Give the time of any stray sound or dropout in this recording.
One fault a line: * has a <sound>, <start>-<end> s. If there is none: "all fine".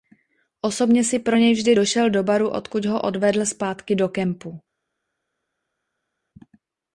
all fine